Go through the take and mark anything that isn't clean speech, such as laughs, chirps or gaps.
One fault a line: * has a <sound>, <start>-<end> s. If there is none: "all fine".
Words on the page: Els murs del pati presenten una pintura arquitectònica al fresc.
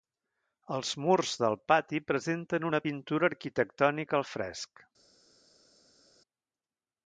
all fine